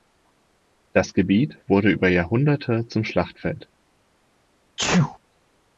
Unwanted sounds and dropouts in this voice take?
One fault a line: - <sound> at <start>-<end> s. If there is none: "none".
- sneeze at 4.8-5.2 s